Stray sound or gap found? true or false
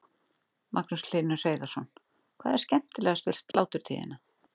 true